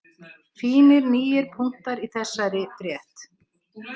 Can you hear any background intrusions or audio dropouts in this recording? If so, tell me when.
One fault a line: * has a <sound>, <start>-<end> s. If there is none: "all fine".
all fine